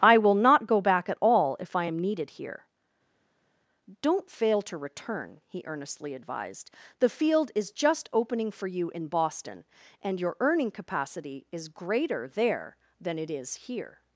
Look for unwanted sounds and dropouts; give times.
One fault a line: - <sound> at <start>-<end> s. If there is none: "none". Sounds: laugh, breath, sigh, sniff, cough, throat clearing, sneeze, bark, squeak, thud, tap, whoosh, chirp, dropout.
none